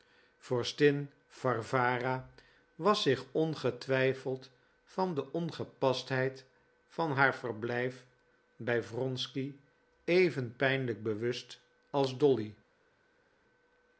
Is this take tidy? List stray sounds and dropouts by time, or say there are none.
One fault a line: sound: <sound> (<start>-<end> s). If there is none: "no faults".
no faults